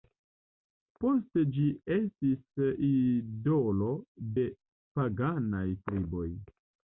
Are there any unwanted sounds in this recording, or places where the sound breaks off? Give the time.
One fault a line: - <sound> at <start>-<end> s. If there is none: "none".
none